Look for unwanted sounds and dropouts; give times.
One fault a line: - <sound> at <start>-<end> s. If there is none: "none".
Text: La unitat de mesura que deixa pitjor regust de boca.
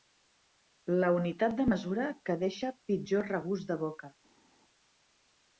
none